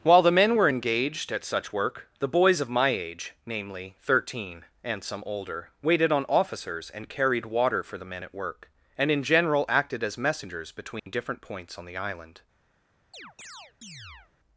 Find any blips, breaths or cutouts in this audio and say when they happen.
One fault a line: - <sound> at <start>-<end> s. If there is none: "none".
- dropout at 11.0-11.1 s
- chirp at 13.1-14.3 s